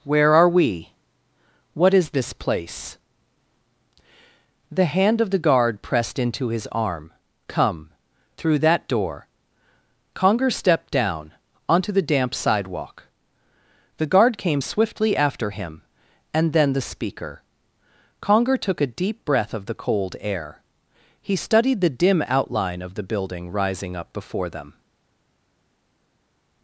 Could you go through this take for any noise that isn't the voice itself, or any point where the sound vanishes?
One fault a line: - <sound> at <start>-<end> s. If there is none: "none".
none